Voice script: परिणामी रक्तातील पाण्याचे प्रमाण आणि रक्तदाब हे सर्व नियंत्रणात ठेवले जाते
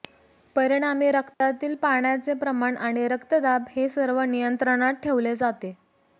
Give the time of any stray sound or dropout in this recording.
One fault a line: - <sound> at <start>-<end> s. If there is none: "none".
- dropout at 1.3-1.4 s